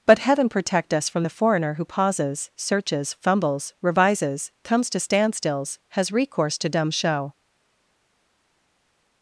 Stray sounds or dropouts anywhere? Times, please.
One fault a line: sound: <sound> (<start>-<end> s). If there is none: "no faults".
no faults